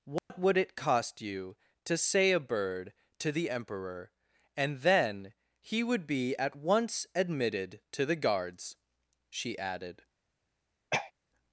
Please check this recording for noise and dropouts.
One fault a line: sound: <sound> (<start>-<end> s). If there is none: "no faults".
sound: dropout (0.2-0.3 s)
sound: throat clearing (10.9-11.1 s)